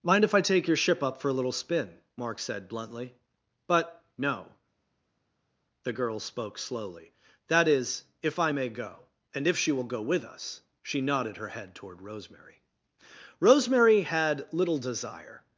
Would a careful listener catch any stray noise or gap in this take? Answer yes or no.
no